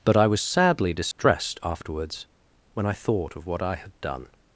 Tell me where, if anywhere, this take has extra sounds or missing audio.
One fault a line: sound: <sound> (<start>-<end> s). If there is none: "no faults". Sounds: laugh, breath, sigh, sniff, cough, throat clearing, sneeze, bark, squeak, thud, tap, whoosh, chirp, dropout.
sound: dropout (1.1-1.2 s)